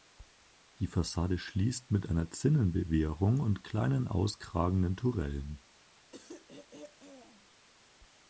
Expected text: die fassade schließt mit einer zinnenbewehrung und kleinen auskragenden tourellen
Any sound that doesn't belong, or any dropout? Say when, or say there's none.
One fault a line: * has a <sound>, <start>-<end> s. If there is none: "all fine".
* has a throat clearing, 6.1-7.5 s